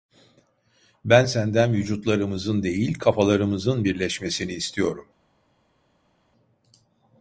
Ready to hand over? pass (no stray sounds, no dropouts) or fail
pass